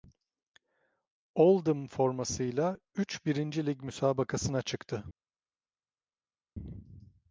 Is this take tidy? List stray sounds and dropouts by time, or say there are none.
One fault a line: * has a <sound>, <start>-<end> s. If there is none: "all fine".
all fine